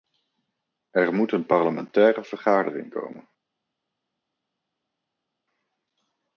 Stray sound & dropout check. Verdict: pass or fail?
pass